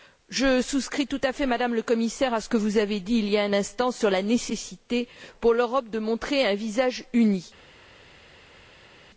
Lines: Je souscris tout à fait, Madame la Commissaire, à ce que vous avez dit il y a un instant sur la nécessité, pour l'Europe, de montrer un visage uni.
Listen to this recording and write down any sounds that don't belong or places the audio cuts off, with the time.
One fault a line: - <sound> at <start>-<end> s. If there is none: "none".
none